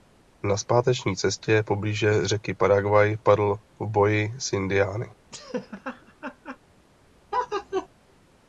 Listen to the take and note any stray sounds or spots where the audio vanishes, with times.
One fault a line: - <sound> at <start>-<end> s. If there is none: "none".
- laugh at 5.3-6.6 s
- laugh at 7.3-7.9 s